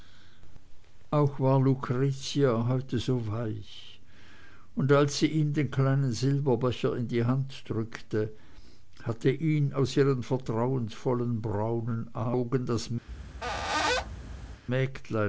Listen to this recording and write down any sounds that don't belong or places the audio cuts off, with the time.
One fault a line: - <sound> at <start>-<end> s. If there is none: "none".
- squeak at 13.1-14.6 s